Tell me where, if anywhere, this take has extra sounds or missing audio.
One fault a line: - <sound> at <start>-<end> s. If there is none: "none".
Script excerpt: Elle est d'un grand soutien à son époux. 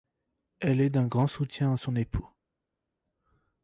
none